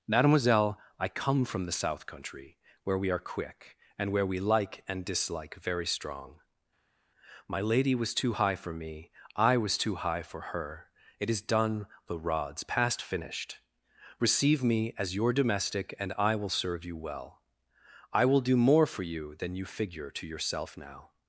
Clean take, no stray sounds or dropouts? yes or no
yes